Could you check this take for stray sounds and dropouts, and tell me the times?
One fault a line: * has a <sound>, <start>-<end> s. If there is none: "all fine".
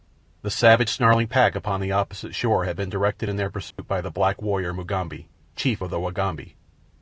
* has a dropout, 3.7-3.8 s